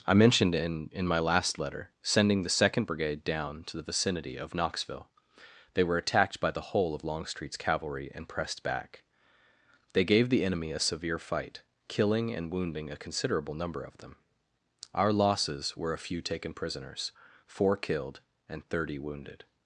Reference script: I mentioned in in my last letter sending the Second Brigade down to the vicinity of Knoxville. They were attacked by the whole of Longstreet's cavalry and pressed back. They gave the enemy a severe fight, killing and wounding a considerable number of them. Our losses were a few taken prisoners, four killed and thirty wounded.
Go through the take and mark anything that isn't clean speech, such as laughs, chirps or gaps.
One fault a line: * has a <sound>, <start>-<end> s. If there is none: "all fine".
all fine